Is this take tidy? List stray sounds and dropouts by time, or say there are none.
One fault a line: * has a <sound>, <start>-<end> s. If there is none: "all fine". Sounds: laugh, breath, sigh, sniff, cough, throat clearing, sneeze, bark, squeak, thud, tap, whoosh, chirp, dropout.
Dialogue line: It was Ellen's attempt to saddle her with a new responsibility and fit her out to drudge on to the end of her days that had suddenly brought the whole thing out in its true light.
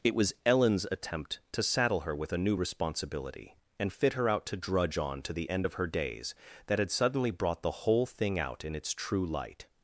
all fine